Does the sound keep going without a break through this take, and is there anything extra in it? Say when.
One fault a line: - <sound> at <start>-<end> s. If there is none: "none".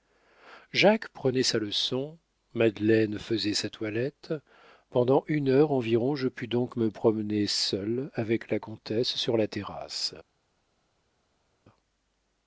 none